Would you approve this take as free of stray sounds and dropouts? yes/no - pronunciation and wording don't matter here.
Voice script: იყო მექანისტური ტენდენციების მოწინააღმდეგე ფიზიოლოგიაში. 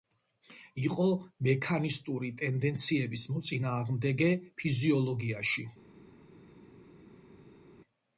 yes